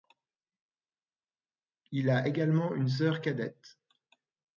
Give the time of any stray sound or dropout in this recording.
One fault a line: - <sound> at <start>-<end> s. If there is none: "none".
none